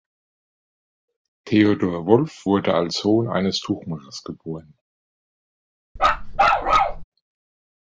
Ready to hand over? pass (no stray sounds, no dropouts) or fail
fail